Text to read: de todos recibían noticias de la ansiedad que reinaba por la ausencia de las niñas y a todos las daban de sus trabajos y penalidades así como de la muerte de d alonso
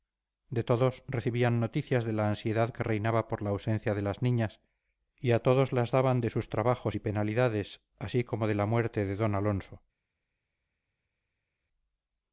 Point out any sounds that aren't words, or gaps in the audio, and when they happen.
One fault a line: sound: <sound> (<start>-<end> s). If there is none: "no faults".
no faults